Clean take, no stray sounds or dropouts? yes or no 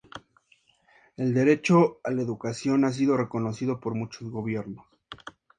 yes